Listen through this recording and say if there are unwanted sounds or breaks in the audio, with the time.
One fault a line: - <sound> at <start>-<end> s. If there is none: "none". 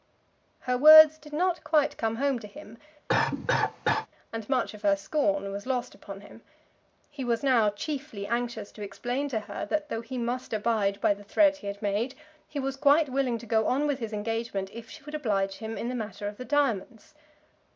- cough at 3.1-4.1 s